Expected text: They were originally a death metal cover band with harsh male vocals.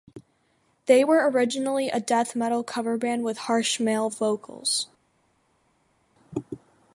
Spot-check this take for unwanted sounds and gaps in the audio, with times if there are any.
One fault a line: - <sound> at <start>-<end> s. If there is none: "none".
none